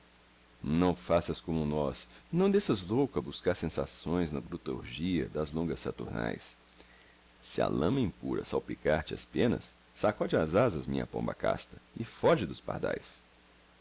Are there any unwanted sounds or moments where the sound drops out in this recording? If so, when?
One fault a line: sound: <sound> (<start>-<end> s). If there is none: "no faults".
no faults